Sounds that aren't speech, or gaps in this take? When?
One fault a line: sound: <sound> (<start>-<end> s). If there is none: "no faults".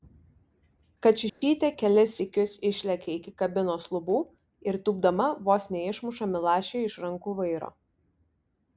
sound: dropout (1.3-1.4 s)